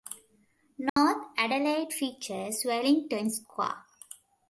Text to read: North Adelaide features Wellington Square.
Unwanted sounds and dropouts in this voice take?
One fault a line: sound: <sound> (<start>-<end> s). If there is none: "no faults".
sound: dropout (0.9-1.0 s)